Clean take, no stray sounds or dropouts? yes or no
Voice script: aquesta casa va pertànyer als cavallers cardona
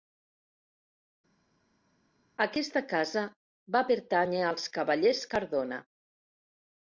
yes